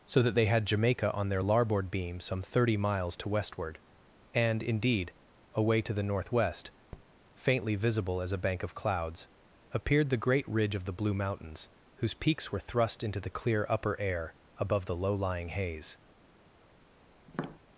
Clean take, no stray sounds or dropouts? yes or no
no